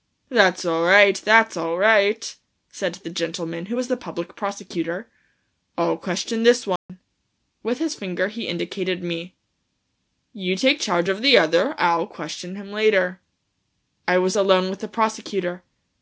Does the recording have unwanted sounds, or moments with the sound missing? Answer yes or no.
yes